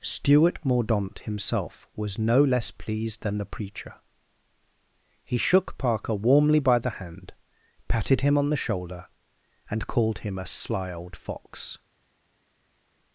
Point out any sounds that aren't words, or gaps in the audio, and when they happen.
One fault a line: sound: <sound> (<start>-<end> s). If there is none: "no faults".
no faults